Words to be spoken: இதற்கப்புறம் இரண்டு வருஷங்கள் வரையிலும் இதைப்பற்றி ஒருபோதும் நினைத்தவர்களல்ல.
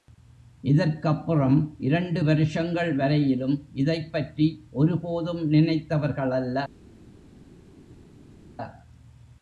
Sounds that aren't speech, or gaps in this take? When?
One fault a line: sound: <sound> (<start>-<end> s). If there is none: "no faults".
no faults